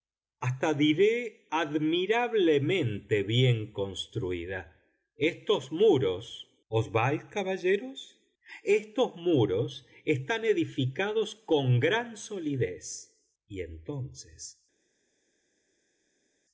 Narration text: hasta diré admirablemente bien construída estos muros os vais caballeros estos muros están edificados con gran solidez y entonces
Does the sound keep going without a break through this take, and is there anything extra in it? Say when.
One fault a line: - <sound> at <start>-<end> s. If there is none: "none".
none